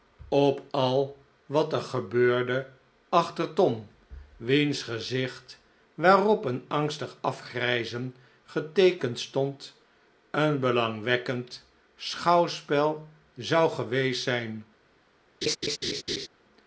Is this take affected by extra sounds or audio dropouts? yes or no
yes